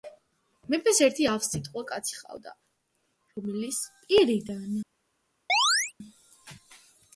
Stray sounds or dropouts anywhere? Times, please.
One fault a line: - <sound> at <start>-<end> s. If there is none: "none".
- chirp at 5.5-5.9 s